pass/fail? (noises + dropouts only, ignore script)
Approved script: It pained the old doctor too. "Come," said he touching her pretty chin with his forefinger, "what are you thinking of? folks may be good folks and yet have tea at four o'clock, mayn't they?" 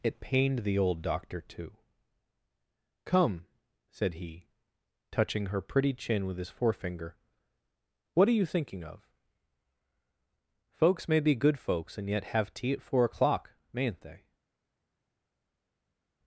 pass